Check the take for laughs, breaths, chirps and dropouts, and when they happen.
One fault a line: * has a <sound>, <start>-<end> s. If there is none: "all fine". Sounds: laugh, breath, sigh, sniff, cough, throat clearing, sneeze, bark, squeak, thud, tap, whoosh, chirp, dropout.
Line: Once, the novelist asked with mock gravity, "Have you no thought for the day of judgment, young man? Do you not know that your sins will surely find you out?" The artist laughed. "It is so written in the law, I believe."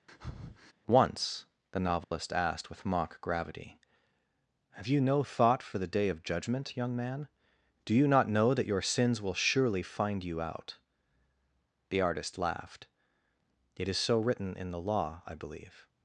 * has a breath, 0.1-0.7 s
* has a dropout, 2.0-2.1 s